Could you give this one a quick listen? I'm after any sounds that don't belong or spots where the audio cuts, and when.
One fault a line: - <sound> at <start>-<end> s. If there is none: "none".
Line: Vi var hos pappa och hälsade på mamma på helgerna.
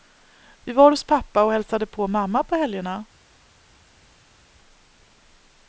none